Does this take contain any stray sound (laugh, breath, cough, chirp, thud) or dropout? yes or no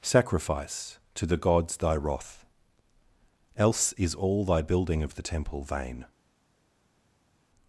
no